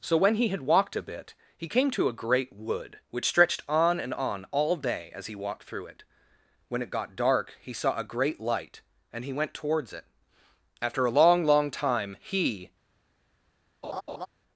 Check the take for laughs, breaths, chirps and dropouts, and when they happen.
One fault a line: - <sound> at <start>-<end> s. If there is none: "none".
- laugh at 13.8-14.3 s